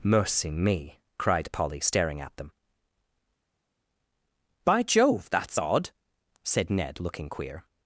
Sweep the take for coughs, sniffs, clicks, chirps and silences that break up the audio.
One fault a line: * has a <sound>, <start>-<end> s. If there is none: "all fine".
all fine